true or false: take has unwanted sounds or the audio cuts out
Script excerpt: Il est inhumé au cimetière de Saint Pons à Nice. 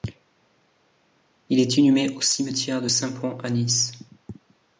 false